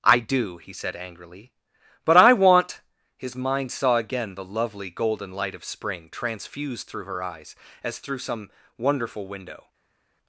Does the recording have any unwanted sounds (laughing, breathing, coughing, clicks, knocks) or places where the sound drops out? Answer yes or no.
no